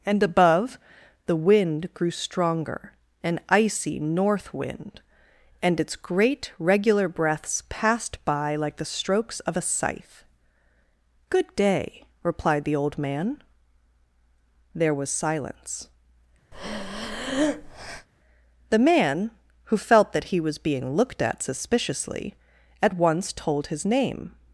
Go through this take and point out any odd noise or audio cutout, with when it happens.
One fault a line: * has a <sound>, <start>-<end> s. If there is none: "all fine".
* has a breath, 16.5-18.1 s